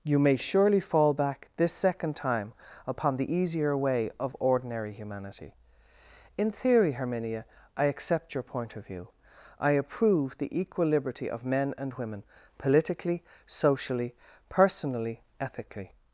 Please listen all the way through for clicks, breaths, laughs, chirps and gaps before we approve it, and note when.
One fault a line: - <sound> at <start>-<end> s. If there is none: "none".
none